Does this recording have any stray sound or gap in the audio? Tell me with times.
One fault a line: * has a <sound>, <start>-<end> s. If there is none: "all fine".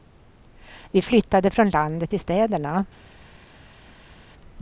all fine